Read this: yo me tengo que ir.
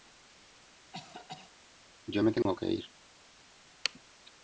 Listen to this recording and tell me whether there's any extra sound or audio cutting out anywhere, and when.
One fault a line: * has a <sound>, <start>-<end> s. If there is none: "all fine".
* has a cough, 0.9-1.5 s
* has a dropout, 2.4-2.5 s